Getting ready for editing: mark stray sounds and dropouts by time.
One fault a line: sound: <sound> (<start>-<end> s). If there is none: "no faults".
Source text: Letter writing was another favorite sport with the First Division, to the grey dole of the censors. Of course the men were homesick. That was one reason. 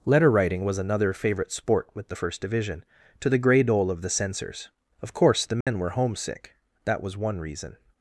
sound: dropout (5.6-5.7 s)